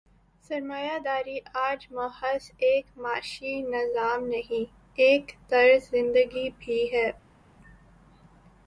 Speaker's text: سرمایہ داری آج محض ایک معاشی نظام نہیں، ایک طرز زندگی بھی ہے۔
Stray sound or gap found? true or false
false